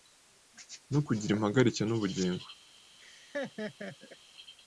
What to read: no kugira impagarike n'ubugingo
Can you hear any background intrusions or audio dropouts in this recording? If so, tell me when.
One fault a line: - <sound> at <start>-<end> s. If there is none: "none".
- laugh at 3.0-4.2 s